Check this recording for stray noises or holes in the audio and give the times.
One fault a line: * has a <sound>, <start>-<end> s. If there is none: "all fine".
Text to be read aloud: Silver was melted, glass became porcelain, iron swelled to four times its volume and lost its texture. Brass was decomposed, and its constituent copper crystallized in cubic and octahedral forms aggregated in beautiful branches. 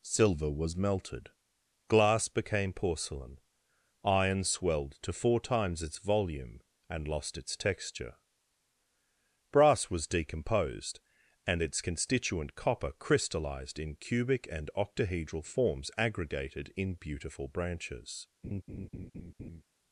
* has a laugh, 18.4-19.6 s